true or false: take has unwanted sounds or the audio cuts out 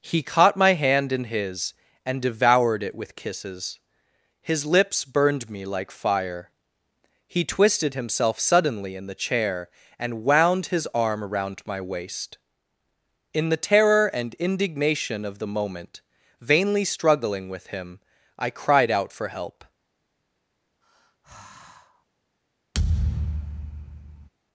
true